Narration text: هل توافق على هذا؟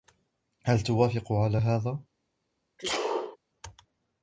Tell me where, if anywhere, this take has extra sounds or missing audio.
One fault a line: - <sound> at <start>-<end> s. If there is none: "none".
- sneeze at 2.8-3.4 s